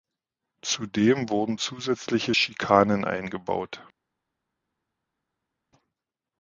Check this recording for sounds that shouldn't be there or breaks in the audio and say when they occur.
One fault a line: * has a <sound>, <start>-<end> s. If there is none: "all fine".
all fine